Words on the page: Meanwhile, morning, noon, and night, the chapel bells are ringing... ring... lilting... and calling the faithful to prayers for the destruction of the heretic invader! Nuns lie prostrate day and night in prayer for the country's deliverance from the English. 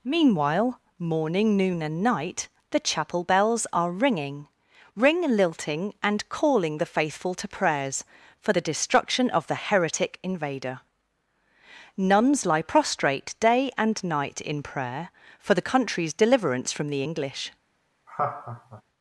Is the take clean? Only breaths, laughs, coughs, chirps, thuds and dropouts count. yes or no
no